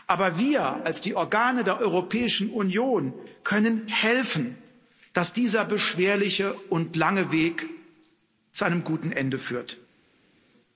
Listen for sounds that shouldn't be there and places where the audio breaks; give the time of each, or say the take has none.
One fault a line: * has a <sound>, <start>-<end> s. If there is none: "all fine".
all fine